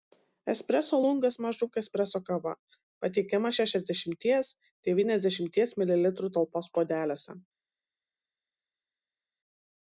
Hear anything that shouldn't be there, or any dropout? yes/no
no